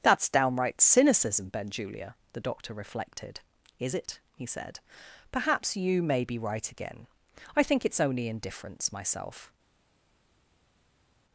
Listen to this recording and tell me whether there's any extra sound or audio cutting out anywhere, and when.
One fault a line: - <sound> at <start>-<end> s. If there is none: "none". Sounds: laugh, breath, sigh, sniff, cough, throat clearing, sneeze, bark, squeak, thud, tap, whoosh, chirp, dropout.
none